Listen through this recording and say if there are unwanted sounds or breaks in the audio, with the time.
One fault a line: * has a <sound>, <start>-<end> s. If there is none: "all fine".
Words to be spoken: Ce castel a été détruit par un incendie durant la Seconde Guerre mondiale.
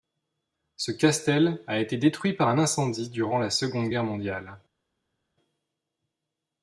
all fine